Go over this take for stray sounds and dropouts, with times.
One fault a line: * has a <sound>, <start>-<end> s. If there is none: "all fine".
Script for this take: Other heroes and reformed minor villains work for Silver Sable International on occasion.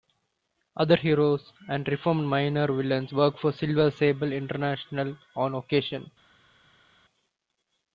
all fine